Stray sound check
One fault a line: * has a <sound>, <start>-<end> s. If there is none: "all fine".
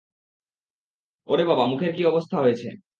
all fine